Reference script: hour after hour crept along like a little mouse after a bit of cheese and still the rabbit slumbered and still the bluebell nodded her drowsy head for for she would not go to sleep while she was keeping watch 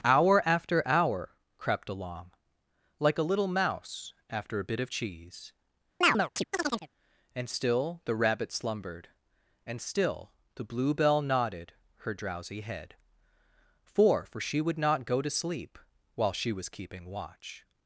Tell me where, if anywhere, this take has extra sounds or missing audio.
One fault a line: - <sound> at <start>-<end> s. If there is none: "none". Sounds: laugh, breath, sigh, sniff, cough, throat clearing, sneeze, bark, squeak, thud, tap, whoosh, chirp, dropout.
- chirp at 6.0-6.9 s